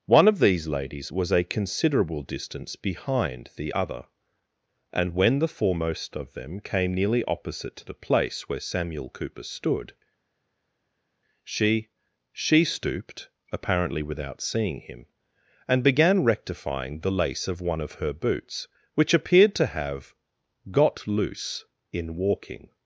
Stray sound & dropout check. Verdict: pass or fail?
pass